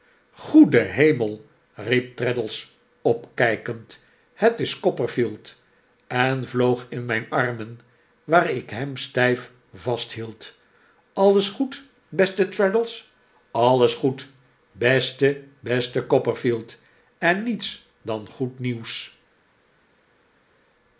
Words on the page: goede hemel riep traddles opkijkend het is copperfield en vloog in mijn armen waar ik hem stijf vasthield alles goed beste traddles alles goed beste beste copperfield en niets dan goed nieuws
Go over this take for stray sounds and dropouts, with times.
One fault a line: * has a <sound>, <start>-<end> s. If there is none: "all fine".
all fine